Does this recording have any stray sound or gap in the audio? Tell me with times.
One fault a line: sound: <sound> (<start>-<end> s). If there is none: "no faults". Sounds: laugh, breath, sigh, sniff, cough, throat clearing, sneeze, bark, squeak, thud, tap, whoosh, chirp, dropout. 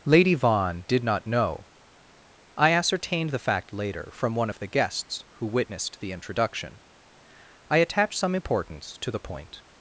no faults